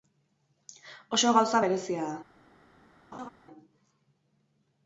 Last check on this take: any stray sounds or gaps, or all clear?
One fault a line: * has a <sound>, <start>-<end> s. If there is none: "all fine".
* has a laugh, 3.1-3.3 s